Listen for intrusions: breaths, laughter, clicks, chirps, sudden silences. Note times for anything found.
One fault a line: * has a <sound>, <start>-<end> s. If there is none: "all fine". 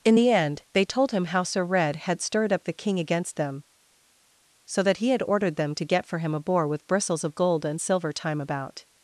all fine